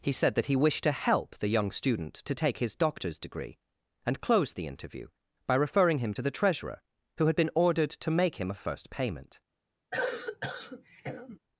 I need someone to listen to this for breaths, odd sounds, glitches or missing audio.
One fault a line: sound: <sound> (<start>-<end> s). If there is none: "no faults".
sound: cough (9.9-11.4 s)